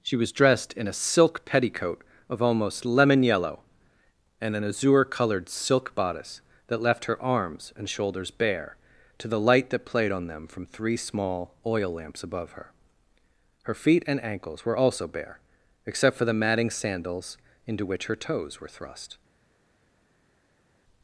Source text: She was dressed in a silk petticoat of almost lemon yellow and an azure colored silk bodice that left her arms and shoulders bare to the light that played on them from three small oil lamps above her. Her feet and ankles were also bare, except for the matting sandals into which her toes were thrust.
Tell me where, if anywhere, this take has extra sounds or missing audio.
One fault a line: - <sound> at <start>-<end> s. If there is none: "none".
none